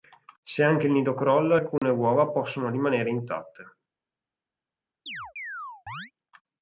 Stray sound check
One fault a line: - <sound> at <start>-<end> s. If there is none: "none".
- dropout at 1.8-1.8 s
- chirp at 5.1-6.1 s